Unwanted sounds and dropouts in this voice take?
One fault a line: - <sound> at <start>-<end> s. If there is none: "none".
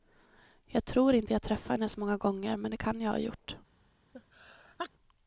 - sneeze at 4.1-4.9 s